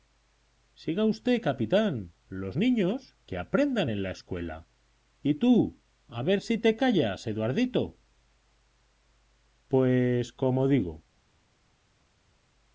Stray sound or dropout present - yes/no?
no